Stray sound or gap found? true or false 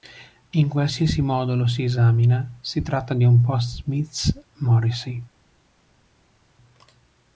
false